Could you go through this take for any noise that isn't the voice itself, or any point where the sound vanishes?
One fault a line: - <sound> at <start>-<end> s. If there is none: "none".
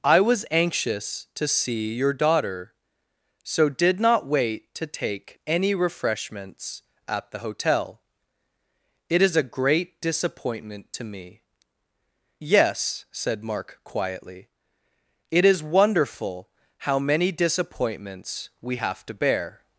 none